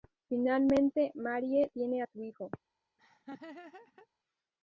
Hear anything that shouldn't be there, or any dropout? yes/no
yes